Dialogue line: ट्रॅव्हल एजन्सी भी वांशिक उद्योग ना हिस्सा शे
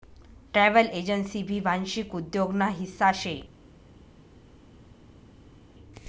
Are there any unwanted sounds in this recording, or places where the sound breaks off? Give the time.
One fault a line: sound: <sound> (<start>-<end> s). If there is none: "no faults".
no faults